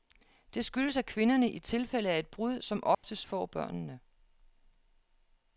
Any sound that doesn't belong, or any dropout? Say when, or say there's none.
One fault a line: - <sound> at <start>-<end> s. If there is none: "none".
- dropout at 2.9-3.0 s